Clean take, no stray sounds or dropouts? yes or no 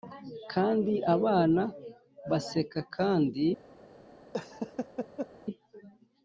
no